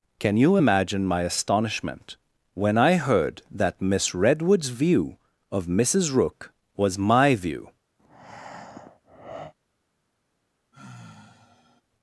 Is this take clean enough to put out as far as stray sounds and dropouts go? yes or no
no